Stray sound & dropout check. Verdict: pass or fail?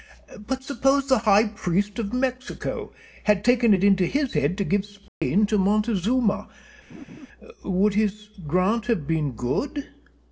fail